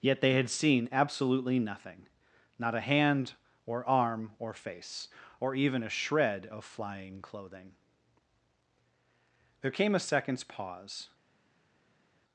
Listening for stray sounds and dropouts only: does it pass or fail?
pass